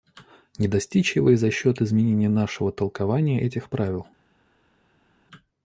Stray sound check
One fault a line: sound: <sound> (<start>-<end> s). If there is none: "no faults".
no faults